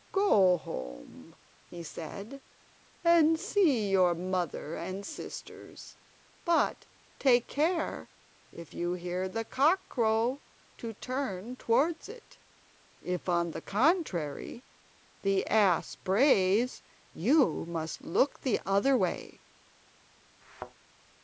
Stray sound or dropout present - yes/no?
yes